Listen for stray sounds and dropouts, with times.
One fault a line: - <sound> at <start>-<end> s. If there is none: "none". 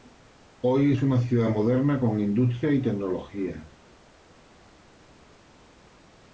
none